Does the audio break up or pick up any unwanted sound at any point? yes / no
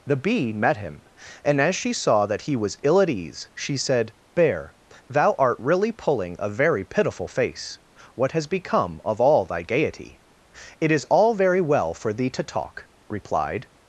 no